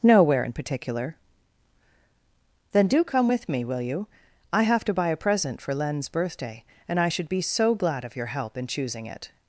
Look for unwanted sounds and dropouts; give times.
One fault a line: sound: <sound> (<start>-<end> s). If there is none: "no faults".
no faults